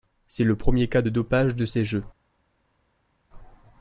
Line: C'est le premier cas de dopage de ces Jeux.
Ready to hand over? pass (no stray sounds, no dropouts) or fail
pass